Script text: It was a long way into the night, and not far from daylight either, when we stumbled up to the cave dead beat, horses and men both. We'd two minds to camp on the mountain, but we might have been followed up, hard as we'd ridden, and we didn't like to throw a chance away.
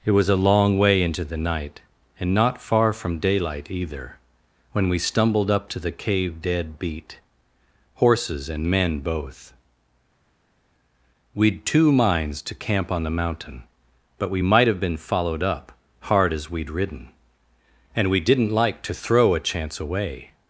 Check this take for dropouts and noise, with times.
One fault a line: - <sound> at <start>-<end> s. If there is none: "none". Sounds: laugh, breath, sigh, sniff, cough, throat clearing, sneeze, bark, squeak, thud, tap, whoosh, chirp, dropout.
none